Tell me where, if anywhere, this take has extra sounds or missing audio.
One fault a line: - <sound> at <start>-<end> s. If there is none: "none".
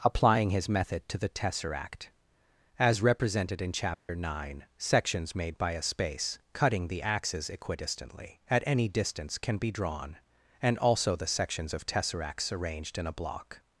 - dropout at 3.9-4.1 s